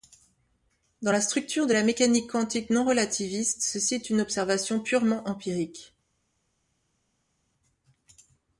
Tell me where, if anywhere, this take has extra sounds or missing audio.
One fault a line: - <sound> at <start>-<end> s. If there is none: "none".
none